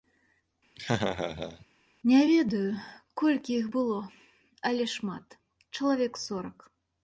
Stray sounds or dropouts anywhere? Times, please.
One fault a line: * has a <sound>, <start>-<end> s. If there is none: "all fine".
* has a laugh, 0.8-1.7 s